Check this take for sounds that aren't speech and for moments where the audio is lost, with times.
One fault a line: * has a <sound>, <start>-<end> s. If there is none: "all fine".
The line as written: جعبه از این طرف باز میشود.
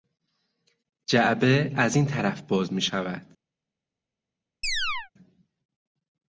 * has a chirp, 4.6-5.1 s